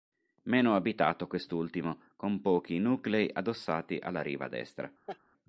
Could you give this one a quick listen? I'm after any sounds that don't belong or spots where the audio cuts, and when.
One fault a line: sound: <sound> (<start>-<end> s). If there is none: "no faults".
sound: laugh (5.1-5.2 s)